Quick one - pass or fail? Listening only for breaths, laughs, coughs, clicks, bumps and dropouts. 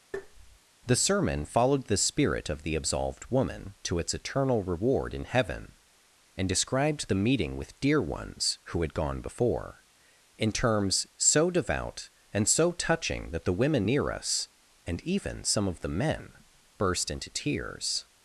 fail